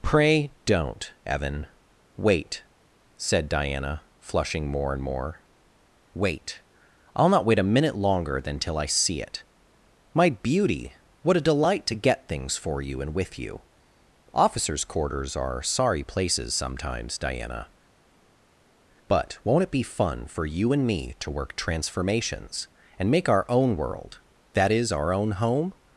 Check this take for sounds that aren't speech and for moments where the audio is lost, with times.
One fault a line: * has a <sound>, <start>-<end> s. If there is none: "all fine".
all fine